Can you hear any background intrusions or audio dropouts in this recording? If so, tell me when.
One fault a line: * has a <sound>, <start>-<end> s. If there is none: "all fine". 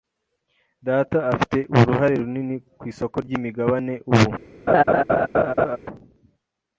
* has a laugh, 4.7-5.8 s